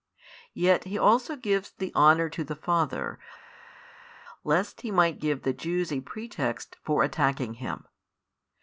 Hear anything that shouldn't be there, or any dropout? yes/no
no